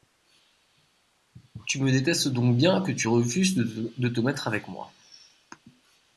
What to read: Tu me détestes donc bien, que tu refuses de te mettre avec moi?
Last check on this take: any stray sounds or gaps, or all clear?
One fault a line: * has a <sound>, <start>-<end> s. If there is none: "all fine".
all fine